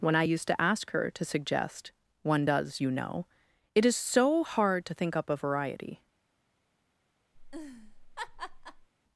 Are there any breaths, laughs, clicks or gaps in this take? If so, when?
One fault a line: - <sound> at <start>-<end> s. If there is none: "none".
- laugh at 7.3-8.9 s